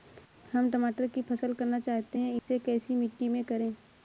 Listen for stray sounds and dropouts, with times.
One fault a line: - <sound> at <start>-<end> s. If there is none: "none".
- dropout at 2.4-2.5 s